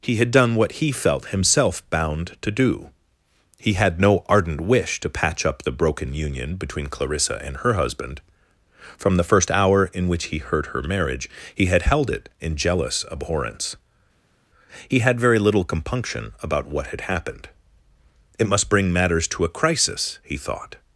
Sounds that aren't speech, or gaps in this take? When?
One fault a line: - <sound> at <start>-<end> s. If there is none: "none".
none